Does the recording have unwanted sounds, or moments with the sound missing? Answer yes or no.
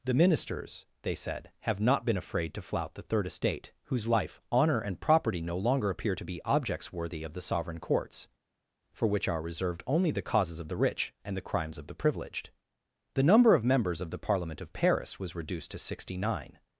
no